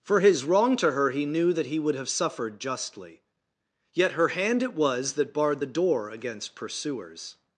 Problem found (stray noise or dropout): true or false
false